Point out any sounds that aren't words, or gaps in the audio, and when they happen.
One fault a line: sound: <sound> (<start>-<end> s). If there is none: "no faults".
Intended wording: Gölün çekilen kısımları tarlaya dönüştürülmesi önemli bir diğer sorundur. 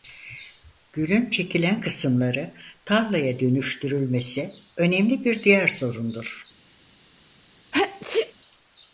sound: sneeze (7.7-8.3 s)